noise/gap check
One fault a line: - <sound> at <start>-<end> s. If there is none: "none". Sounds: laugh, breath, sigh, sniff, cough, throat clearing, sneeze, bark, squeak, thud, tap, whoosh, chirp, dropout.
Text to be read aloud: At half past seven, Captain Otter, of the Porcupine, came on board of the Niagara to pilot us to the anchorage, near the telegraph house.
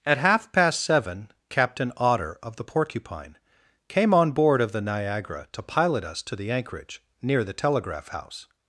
none